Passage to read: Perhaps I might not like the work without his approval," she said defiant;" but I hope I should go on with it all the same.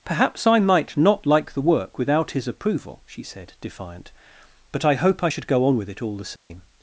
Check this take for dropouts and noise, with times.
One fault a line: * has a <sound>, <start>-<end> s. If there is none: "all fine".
* has a dropout, 6.4-6.5 s